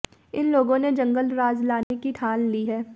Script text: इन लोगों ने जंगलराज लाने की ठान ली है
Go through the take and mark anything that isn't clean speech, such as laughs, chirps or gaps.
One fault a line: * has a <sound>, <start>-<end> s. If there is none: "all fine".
* has a dropout, 1.8-1.9 s